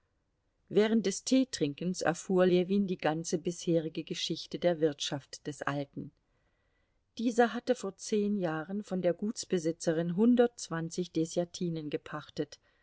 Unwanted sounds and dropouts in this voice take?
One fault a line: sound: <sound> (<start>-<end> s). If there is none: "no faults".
no faults